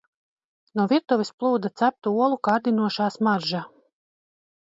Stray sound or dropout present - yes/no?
no